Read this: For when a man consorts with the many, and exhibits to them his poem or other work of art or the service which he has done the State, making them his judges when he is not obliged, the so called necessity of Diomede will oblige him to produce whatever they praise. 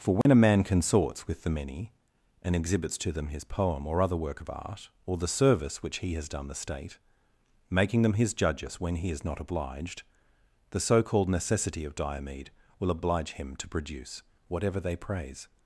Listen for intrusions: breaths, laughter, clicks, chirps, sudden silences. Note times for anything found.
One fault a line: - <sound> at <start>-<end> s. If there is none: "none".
- dropout at 0.2-0.3 s